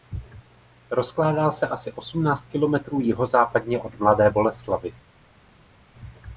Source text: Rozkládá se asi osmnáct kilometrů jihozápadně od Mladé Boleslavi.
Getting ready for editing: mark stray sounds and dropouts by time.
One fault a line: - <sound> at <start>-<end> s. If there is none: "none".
none